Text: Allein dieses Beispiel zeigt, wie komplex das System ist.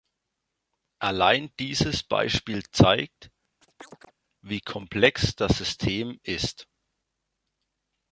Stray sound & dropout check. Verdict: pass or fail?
fail